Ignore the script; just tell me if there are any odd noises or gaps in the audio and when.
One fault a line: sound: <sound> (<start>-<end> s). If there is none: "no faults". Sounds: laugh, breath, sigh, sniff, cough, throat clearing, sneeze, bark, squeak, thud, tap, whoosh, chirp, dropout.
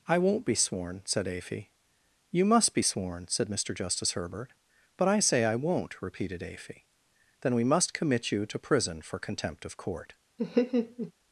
sound: laugh (10.4-11.1 s)